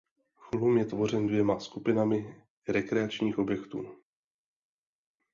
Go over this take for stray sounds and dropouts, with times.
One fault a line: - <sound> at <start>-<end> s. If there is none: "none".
none